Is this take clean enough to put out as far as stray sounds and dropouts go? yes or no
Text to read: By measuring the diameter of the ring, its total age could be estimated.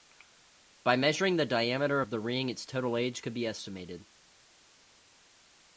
yes